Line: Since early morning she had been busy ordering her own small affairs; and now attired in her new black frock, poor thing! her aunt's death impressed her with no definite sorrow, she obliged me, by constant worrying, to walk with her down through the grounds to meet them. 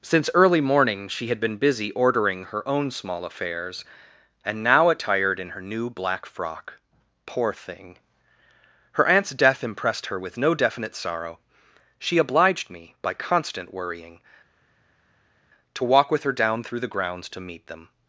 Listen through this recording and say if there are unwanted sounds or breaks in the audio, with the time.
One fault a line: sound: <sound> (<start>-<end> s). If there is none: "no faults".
no faults